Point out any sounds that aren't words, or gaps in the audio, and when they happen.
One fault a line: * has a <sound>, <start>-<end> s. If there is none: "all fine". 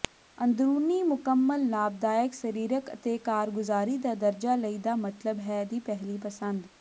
all fine